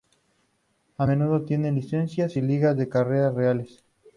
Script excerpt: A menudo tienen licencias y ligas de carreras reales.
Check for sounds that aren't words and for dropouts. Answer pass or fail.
pass